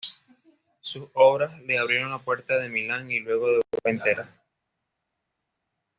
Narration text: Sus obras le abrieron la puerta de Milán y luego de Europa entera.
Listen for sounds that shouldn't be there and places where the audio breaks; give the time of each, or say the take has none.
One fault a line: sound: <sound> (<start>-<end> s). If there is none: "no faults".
no faults